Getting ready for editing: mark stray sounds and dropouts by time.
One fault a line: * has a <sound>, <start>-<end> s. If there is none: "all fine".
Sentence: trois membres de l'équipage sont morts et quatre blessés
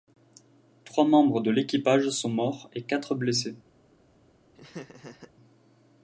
* has a laugh, 4.5-5.3 s